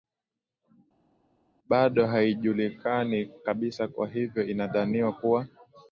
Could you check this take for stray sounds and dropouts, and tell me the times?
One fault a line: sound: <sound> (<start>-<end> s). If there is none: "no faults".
no faults